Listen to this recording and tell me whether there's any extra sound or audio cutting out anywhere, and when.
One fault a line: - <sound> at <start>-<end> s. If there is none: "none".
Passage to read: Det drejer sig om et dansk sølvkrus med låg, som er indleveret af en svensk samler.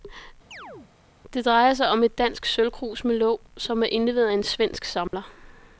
- chirp at 0.5-0.9 s
- dropout at 5.1-5.1 s